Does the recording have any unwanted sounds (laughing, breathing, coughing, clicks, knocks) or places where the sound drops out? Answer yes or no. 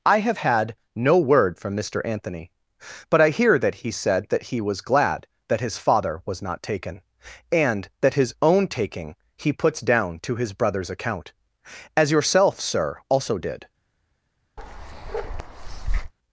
yes